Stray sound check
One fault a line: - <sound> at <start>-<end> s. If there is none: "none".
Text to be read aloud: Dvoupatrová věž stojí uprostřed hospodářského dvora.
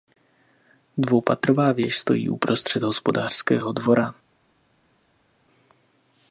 none